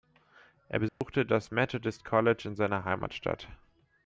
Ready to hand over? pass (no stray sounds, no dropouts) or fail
fail